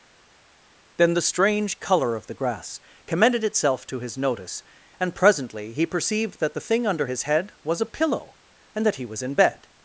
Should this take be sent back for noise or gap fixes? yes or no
no